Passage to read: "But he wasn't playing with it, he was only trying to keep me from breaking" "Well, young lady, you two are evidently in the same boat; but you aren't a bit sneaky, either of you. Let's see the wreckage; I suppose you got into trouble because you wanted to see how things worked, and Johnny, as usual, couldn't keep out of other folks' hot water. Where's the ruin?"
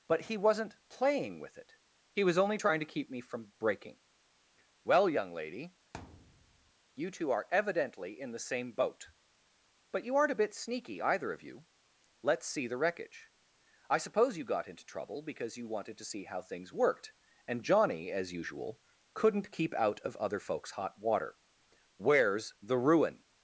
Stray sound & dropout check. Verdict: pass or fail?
fail